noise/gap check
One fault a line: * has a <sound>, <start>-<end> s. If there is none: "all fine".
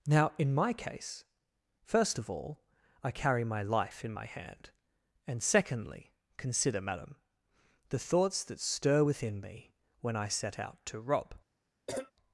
* has a cough, 11.9-12.1 s